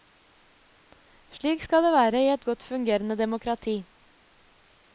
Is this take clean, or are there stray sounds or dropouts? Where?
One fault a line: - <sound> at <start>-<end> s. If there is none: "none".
none